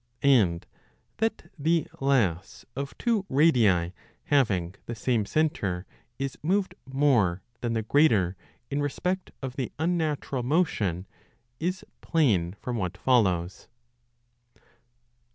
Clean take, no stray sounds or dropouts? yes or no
yes